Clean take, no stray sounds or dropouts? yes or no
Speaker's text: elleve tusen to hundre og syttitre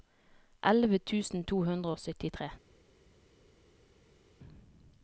yes